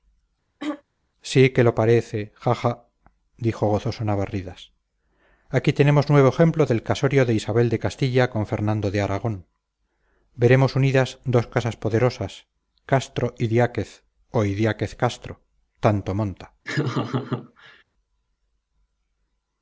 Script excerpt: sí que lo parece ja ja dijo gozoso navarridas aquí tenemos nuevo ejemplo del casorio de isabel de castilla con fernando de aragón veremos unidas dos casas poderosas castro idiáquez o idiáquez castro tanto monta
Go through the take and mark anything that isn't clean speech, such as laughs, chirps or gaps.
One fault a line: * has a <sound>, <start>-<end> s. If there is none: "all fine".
* has a throat clearing, 0.6-0.8 s
* has a laugh, 16.6-17.8 s